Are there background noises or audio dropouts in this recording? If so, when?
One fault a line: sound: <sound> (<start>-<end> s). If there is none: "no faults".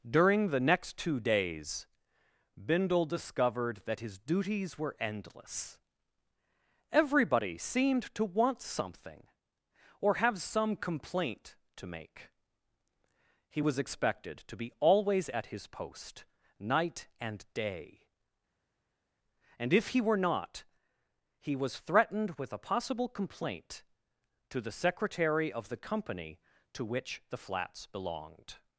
no faults